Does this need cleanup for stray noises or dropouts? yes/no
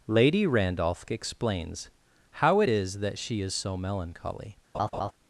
yes